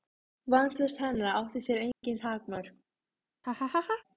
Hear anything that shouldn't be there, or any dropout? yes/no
yes